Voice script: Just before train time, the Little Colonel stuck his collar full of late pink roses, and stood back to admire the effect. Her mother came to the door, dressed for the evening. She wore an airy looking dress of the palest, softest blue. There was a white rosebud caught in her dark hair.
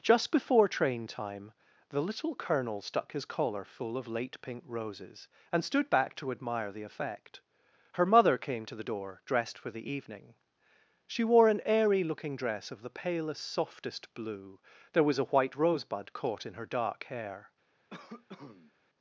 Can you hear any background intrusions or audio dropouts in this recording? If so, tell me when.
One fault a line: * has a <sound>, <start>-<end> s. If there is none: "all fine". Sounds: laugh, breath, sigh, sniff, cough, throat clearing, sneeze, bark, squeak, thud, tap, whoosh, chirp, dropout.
* has a cough, 17.9-18.7 s